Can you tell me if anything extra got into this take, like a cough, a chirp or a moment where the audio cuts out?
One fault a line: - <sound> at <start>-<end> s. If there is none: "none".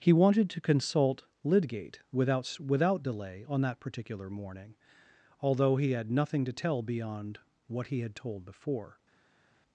none